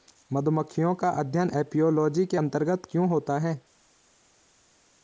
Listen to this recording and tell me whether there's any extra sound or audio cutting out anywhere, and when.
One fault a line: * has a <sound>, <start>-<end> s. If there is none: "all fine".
all fine